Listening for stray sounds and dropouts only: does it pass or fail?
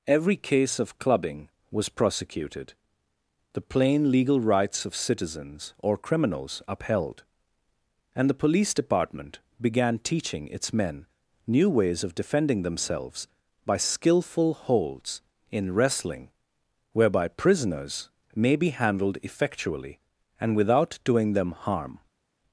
pass